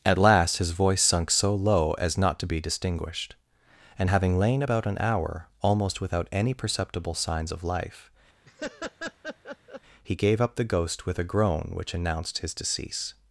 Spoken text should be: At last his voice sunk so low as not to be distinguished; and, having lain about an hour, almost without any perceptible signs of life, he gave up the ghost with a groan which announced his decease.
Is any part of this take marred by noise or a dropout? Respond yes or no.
yes